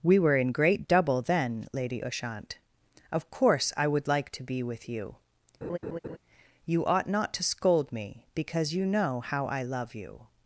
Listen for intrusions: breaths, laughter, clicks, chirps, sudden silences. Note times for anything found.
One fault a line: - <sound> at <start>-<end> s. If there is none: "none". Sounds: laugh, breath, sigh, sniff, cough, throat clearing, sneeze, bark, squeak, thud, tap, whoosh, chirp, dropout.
- laugh at 5.6-6.2 s